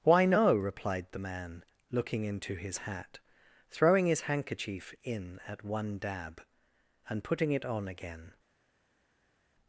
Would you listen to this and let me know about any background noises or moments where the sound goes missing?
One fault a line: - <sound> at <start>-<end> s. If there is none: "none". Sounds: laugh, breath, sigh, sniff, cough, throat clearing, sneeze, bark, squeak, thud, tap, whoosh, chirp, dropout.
none